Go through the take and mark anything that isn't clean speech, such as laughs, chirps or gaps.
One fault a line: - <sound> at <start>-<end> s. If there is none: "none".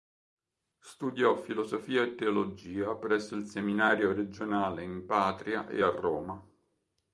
none